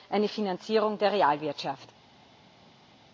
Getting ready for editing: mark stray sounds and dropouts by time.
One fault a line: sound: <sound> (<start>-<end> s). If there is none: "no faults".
no faults